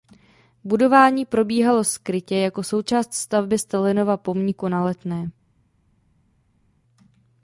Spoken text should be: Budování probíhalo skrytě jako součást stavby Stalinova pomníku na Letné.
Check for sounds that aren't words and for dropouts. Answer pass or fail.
pass